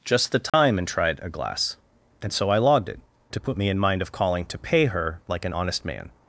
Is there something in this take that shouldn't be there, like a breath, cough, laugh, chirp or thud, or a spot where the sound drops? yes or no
yes